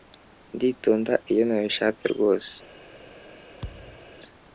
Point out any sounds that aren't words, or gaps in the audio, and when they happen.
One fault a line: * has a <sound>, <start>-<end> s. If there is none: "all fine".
* has a thud, 3.6-4.1 s